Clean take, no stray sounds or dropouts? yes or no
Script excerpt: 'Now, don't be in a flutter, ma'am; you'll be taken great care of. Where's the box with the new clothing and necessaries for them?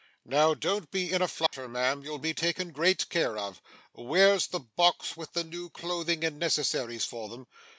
no